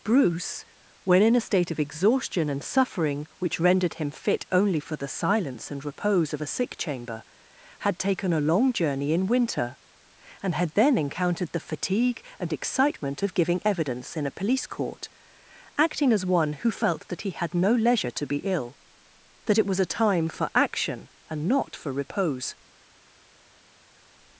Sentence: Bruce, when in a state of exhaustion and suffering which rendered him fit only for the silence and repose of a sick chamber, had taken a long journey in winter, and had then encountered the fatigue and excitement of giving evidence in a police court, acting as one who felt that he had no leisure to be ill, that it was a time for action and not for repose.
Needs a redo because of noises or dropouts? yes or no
no